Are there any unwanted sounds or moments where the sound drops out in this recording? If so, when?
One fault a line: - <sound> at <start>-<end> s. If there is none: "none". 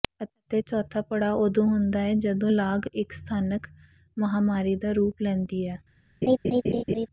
- laugh at 6.2-7.1 s